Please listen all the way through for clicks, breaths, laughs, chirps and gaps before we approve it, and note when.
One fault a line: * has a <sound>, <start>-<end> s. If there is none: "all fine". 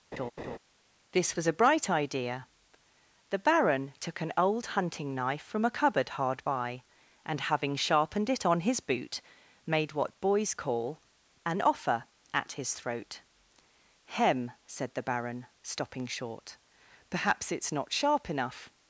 * has a laugh, 0.1-0.6 s